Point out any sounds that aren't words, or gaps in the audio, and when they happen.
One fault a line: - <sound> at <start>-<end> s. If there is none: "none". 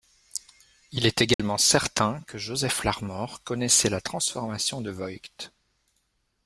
- dropout at 1.3-1.4 s